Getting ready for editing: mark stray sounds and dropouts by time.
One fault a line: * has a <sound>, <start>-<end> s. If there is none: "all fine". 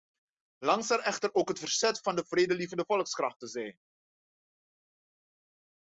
all fine